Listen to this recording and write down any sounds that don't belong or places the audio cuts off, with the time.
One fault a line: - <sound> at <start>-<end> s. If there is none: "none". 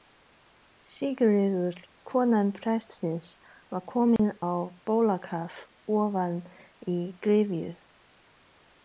- dropout at 4.2-4.2 s